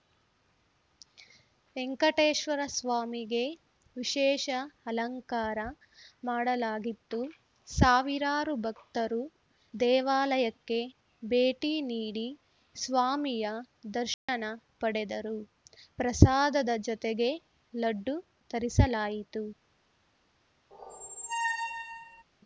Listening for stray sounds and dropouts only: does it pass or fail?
fail